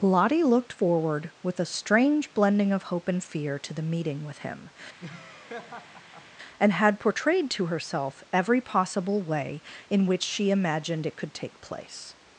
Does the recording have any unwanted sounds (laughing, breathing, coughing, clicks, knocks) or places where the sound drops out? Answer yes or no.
yes